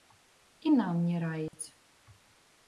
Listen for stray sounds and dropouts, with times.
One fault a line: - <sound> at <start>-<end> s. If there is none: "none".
- dropout at 1.5-1.5 s